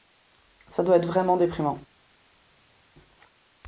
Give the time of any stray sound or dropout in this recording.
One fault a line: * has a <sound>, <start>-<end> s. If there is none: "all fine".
all fine